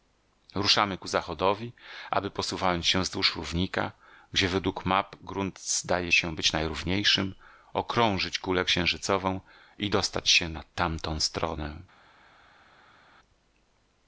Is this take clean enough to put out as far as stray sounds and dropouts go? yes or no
yes